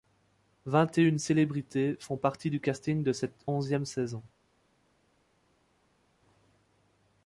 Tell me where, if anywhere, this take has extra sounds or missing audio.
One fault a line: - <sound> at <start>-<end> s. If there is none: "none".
none